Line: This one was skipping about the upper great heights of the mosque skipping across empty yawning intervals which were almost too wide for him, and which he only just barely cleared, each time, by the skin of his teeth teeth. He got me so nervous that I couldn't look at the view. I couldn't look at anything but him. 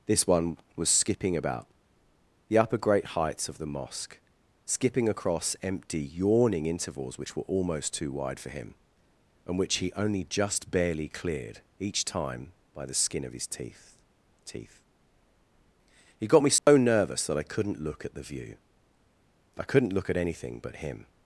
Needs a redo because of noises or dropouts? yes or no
yes